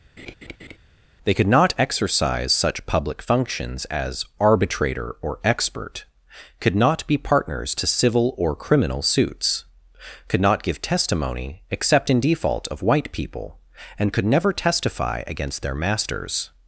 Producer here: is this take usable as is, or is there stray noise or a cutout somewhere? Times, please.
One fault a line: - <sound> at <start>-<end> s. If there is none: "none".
- laugh at 0.2-0.8 s